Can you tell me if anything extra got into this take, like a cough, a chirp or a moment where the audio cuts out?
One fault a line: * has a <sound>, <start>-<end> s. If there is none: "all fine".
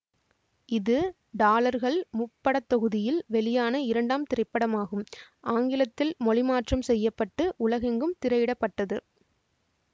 all fine